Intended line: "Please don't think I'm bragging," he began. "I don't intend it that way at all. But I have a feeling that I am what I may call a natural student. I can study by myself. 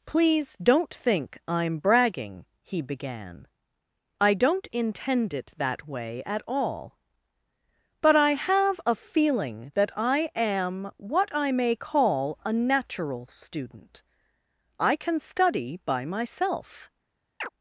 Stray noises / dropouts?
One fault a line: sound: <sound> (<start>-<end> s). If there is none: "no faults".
sound: chirp (17.4-17.5 s)